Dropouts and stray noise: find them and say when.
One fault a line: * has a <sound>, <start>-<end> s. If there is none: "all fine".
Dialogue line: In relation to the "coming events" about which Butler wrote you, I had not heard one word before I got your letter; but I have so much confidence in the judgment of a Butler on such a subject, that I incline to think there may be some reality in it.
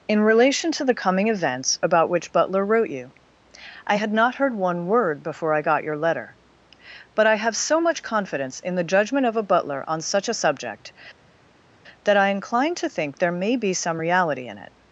all fine